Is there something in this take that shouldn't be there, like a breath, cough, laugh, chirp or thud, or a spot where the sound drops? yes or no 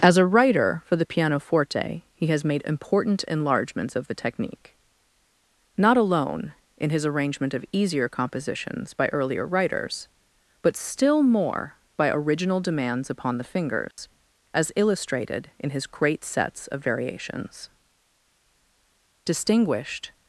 yes